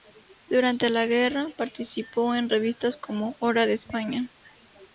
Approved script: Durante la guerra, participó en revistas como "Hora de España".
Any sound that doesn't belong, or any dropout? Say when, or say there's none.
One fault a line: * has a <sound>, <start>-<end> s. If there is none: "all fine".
all fine